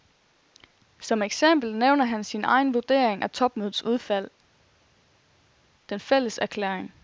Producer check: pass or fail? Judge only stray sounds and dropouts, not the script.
pass